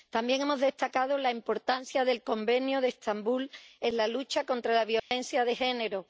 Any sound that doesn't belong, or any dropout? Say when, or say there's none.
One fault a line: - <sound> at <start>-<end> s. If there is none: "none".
- dropout at 5.0-5.1 s